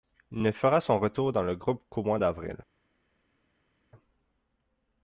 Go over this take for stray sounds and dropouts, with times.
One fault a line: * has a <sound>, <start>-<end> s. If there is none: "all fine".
all fine